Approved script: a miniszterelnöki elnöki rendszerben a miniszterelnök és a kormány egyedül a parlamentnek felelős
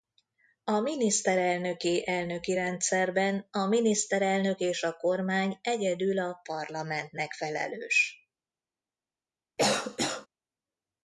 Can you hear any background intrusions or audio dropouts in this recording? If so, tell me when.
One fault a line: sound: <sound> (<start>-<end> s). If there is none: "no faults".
sound: cough (9.6-10.3 s)